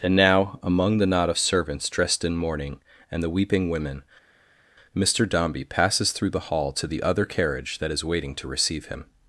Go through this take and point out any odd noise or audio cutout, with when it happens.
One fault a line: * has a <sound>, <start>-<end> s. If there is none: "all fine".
all fine